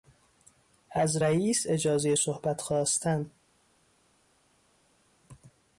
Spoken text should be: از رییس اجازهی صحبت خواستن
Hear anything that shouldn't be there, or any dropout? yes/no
no